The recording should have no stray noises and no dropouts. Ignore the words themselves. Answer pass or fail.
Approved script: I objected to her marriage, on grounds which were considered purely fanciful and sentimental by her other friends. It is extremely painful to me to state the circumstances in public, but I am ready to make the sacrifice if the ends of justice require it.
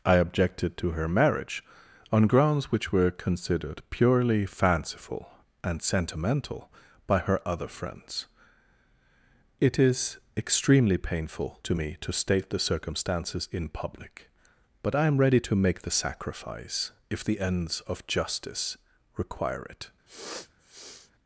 fail